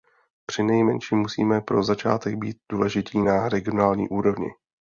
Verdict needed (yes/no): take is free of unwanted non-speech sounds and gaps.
yes